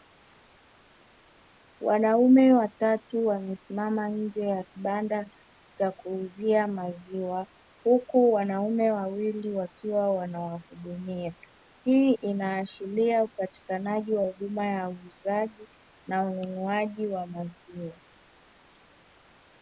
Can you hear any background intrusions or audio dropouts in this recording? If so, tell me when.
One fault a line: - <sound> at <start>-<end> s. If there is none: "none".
none